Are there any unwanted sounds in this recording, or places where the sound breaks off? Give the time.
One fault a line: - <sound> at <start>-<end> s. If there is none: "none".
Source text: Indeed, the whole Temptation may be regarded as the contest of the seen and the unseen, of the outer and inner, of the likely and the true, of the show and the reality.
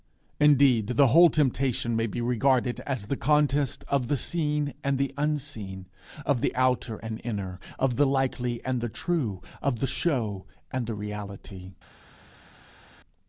none